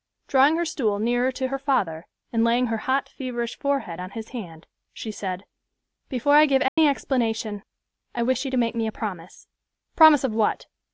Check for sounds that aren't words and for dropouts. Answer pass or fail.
fail